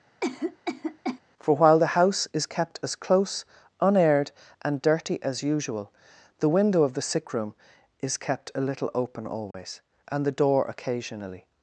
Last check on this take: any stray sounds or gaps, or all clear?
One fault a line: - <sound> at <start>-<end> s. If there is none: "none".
- cough at 0.2-1.2 s
- dropout at 9.5-9.5 s